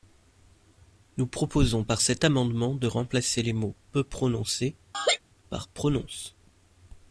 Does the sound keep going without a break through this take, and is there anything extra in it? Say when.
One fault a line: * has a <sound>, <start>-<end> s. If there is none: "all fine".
* has a laugh, 4.9-5.2 s